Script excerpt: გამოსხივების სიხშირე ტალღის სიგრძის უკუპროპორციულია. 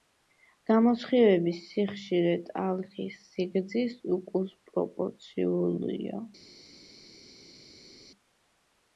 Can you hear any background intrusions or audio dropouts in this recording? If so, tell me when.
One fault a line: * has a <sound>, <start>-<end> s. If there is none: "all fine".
all fine